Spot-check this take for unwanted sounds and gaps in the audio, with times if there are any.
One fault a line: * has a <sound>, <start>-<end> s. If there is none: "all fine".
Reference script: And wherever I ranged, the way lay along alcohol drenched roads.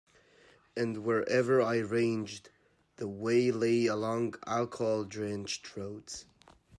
all fine